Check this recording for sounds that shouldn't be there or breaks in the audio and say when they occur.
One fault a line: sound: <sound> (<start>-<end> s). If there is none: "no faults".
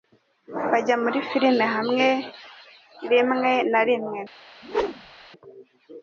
sound: whoosh (4.6-5.3 s)